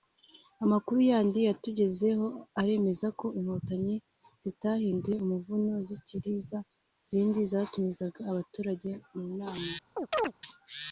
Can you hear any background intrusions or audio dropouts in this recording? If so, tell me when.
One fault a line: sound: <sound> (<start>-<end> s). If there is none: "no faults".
sound: chirp (10.0-10.3 s)